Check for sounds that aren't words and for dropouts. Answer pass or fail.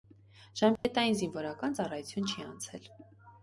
fail